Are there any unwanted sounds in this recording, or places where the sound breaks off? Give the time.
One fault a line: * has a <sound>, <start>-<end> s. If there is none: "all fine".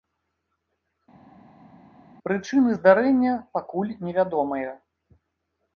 all fine